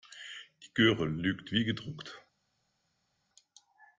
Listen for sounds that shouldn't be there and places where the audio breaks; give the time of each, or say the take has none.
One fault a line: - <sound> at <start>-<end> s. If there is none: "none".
none